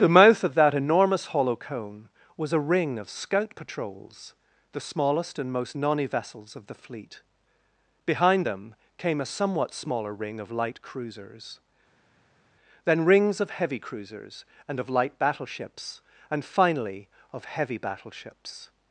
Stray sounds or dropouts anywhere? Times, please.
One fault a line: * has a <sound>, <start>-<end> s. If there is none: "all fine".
all fine